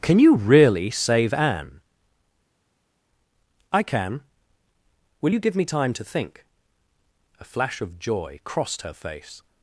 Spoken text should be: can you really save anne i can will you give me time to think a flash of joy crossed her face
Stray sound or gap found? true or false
false